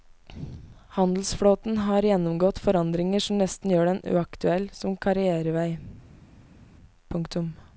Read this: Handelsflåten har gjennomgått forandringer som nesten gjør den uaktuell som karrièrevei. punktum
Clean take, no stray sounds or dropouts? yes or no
yes